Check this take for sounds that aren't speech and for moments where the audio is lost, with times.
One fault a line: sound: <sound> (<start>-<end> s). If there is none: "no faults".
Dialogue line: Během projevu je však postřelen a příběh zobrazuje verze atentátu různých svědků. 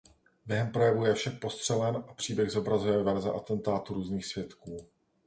no faults